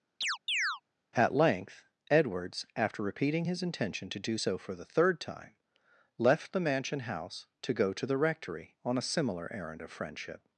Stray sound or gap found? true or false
true